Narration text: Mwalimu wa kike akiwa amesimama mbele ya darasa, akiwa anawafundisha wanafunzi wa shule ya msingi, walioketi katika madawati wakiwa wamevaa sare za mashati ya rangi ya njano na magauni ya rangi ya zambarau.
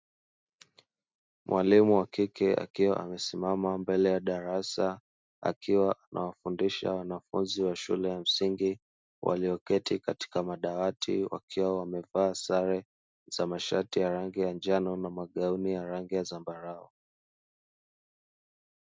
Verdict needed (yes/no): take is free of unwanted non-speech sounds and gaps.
yes